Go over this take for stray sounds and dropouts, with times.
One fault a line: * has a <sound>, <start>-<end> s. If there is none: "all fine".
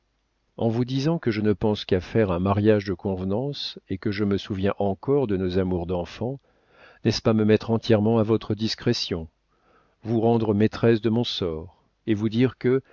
all fine